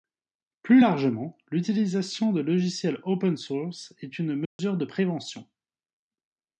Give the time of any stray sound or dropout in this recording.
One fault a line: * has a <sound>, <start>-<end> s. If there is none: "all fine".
* has a dropout, 4.5-4.6 s